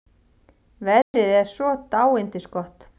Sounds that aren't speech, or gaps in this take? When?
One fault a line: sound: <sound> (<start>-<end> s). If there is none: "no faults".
sound: dropout (1.0-1.1 s)